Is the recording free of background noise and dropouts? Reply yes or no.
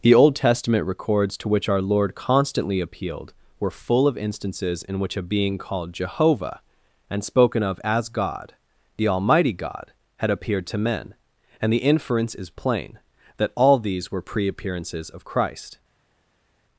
yes